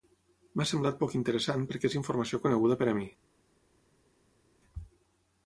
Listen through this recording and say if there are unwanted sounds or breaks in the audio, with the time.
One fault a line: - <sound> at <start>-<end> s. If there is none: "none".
none